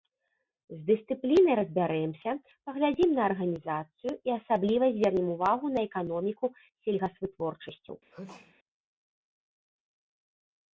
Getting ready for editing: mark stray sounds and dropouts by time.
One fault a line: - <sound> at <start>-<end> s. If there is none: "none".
- sneeze at 8.1-8.6 s